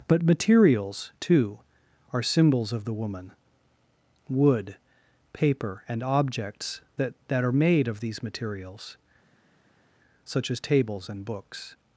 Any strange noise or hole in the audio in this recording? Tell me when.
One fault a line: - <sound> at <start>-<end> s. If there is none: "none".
none